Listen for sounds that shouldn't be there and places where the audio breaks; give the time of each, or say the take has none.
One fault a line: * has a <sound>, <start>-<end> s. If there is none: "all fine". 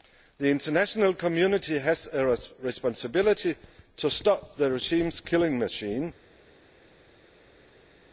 all fine